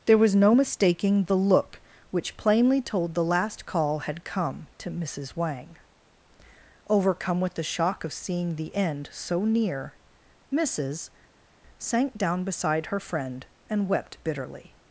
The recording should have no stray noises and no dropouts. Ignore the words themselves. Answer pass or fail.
pass